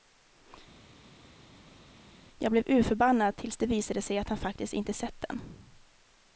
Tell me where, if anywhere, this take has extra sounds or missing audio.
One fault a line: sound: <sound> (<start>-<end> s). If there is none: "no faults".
no faults